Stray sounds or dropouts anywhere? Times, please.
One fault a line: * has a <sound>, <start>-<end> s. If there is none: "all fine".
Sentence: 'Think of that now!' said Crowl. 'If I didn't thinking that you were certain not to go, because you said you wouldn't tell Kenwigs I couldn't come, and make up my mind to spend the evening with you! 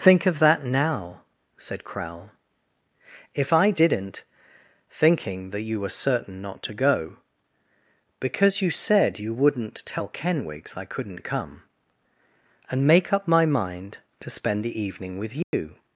* has a dropout, 15.4-15.5 s